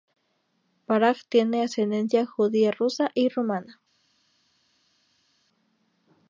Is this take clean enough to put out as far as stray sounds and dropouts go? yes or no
yes